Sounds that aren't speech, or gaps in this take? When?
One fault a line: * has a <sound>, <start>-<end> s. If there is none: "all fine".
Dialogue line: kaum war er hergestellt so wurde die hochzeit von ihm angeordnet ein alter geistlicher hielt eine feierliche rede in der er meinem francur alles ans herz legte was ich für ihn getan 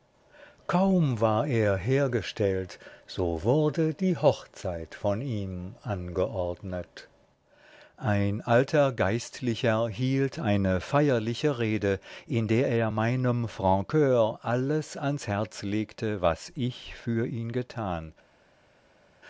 all fine